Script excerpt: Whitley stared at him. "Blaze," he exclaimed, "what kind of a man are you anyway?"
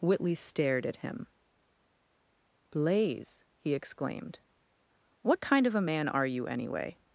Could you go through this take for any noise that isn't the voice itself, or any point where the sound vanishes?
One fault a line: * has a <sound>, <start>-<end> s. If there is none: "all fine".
all fine